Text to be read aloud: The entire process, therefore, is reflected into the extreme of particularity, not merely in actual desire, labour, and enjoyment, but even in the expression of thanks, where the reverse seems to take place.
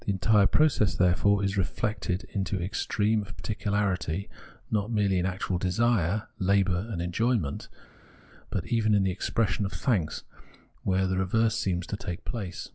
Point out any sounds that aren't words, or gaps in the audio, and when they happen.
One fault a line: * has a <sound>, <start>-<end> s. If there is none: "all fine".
all fine